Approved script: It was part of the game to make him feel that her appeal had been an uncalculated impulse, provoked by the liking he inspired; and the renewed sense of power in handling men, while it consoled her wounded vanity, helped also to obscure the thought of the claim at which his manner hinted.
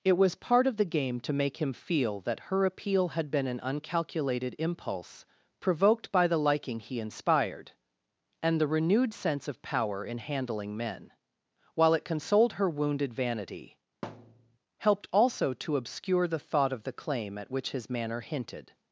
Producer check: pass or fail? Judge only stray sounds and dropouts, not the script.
fail